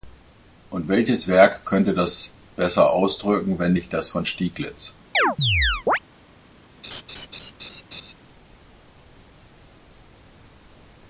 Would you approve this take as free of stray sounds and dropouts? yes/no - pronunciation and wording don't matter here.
no